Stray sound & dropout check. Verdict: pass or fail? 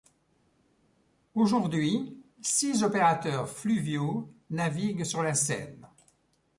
pass